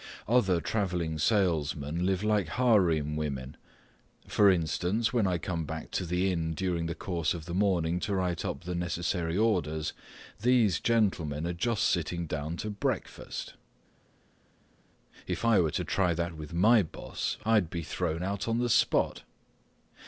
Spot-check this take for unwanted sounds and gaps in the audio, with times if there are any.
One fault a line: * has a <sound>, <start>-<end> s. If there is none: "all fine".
all fine